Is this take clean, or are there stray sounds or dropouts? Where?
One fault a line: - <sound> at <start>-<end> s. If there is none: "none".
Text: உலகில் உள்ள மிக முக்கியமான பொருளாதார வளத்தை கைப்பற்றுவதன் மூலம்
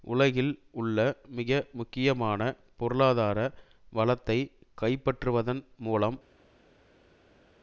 none